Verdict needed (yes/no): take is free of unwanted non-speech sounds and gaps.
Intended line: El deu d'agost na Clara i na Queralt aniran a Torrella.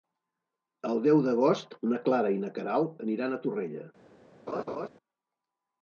no